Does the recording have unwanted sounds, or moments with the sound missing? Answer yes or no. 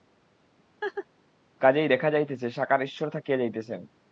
yes